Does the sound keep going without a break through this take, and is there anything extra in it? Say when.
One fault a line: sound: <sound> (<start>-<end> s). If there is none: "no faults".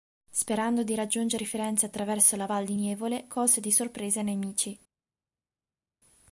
no faults